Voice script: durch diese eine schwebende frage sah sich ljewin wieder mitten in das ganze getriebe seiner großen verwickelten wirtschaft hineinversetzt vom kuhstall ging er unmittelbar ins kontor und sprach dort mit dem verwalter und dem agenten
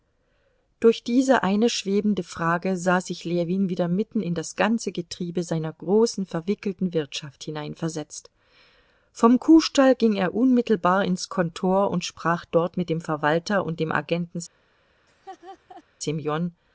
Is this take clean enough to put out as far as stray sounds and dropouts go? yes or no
no